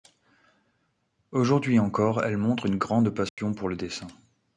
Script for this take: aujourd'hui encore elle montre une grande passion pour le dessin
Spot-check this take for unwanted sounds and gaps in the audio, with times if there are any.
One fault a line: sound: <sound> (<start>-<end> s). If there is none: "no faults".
sound: dropout (3.3-3.4 s)